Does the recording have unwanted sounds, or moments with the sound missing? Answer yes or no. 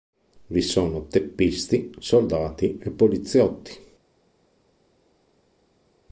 no